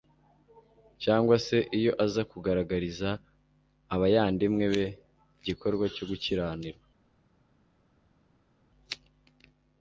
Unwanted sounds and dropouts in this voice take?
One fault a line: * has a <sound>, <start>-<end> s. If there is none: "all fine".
all fine